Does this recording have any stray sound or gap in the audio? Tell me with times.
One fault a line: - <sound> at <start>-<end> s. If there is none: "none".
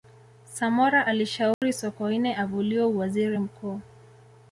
- dropout at 1.5-1.6 s